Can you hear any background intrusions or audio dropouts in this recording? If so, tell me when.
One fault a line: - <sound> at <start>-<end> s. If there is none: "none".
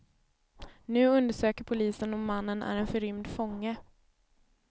none